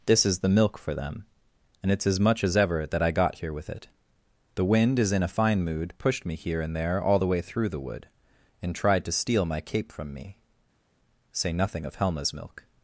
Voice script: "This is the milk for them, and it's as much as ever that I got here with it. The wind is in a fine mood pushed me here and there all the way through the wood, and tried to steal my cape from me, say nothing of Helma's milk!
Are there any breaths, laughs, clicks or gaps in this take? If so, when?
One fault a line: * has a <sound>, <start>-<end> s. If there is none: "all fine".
all fine